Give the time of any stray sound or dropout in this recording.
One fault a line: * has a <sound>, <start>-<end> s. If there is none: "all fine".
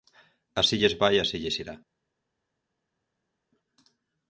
all fine